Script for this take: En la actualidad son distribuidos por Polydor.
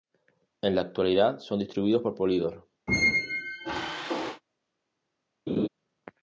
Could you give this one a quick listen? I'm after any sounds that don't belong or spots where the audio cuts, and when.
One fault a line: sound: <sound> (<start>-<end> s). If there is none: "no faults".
sound: squeak (2.9-4.4 s)
sound: laugh (5.5-5.7 s)